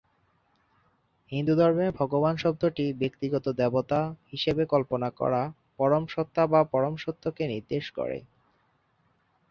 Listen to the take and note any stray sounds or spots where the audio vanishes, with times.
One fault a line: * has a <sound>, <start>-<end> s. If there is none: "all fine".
all fine